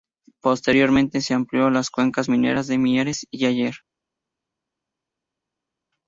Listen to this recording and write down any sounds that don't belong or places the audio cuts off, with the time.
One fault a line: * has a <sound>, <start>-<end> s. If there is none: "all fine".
all fine